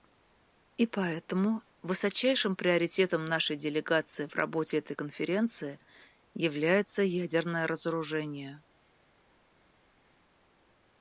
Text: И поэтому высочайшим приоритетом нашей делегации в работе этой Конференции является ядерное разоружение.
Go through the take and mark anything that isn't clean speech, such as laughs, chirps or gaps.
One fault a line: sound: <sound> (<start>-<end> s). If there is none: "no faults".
no faults